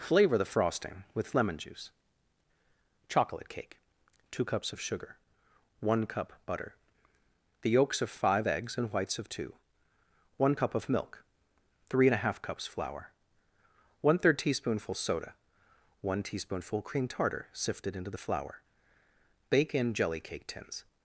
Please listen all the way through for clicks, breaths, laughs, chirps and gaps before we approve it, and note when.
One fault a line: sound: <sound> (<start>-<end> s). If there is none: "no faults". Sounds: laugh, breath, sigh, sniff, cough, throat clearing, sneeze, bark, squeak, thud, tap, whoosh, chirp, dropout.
no faults